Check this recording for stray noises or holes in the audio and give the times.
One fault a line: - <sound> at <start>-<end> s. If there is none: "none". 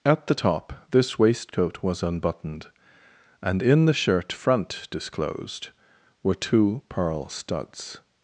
none